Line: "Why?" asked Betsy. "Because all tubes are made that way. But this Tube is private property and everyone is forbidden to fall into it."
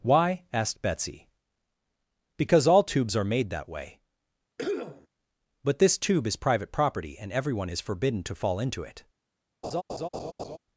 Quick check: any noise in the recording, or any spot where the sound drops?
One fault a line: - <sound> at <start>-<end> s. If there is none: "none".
- cough at 4.6-5.1 s
- laugh at 9.6-10.6 s